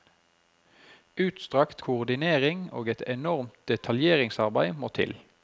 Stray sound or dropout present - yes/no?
no